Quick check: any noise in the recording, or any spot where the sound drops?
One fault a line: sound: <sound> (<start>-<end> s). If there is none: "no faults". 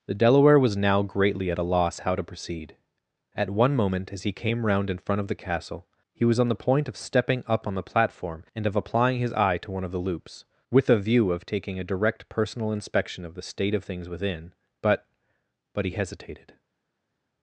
no faults